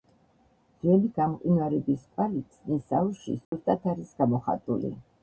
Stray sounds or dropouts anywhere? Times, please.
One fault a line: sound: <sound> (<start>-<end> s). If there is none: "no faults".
sound: dropout (3.4-3.5 s)